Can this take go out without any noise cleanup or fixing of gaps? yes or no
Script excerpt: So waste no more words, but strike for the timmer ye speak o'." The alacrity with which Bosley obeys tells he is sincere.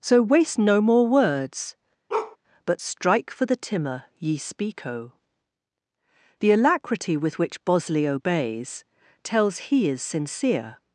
no